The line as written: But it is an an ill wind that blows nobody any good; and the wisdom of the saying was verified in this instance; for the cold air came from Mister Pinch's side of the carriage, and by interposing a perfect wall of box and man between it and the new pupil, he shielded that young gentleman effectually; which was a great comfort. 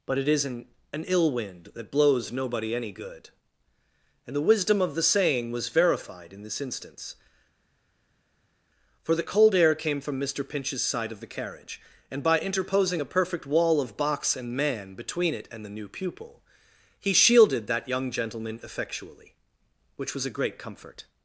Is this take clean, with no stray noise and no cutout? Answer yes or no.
yes